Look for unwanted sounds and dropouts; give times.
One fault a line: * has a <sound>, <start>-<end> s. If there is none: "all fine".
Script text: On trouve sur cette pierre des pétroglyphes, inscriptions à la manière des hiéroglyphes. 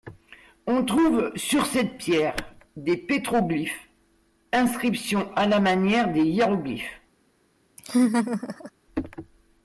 * has a laugh, 7.8-8.7 s